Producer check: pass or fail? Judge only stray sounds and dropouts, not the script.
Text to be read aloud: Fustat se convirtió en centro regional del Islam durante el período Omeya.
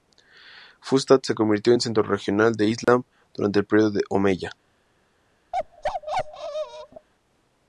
fail